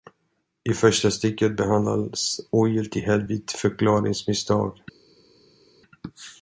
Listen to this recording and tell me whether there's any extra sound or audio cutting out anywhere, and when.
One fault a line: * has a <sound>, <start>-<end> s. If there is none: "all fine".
all fine